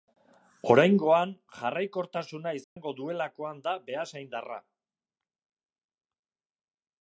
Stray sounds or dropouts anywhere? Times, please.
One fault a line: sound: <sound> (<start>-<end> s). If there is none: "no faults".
sound: dropout (2.6-2.8 s)